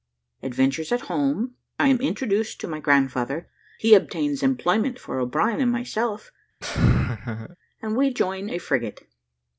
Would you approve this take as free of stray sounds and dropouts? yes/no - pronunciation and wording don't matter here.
no